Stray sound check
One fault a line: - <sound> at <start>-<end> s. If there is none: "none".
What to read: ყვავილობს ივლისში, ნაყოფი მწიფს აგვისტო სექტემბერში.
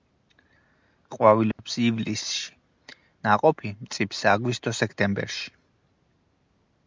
- dropout at 1.5-1.6 s